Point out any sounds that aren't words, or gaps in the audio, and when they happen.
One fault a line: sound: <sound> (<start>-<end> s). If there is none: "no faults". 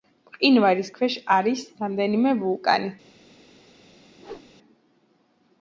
sound: whoosh (4.2-4.5 s)